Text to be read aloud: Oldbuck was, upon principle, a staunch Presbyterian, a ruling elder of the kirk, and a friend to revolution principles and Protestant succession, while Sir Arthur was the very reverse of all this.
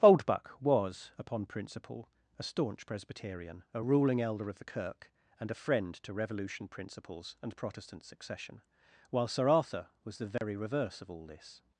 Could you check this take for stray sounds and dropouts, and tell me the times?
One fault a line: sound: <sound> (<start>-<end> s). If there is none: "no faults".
sound: dropout (10.4-10.4 s)